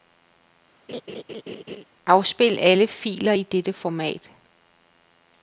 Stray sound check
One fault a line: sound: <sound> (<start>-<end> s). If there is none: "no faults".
sound: laugh (0.9-1.8 s)